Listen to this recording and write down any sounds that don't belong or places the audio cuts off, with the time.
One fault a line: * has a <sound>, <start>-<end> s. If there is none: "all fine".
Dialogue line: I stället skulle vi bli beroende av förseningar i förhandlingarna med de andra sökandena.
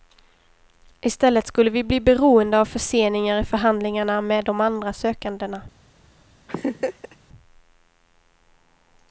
* has a laugh, 6.5-7.2 s